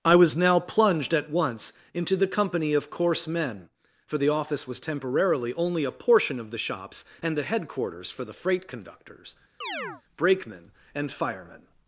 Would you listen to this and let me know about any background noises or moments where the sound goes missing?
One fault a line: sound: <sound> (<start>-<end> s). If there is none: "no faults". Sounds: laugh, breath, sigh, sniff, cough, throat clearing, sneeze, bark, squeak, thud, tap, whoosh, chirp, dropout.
sound: chirp (9.6-10.0 s)